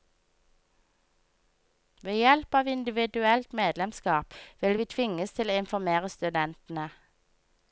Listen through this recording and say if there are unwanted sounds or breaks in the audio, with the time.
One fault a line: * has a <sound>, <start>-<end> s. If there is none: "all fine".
all fine